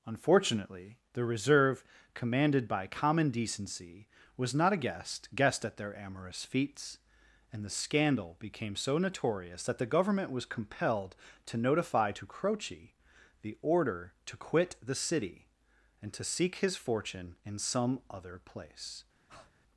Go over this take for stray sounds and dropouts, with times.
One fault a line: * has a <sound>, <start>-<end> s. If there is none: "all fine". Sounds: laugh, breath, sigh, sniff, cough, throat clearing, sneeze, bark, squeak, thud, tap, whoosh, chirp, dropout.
* has a breath, 19.3-19.5 s